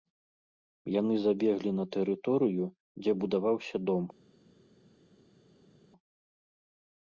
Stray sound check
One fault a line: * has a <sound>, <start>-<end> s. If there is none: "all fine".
all fine